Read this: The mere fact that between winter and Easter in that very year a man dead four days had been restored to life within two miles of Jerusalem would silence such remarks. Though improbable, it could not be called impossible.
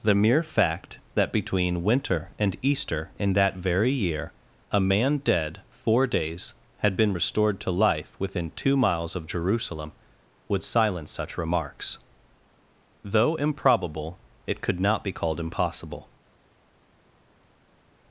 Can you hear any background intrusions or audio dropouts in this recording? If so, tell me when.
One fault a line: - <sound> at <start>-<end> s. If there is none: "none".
none